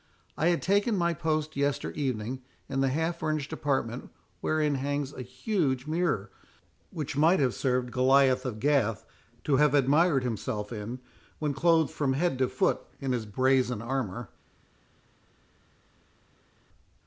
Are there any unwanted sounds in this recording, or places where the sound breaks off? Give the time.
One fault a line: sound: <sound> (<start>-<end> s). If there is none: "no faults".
no faults